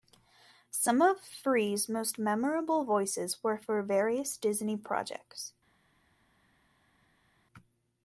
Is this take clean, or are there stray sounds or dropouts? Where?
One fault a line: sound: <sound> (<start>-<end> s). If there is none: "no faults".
no faults